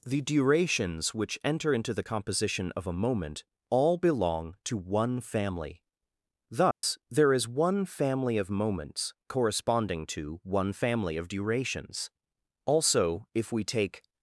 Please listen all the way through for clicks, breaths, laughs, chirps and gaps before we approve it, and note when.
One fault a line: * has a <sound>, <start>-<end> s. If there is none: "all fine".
* has a dropout, 6.7-6.8 s